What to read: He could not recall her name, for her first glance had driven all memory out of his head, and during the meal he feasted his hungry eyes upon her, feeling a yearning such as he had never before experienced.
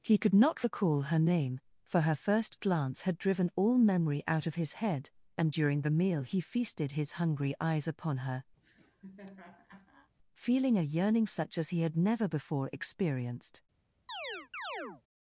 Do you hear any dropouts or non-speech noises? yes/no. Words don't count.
yes